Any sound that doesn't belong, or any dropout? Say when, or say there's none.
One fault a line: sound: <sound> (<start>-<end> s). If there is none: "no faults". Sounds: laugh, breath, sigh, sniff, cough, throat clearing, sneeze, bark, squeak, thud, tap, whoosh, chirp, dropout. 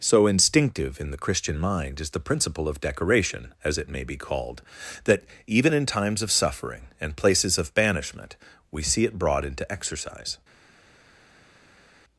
no faults